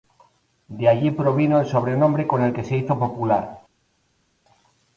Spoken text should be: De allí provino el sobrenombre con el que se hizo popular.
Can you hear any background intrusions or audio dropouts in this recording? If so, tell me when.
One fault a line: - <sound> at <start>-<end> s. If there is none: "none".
none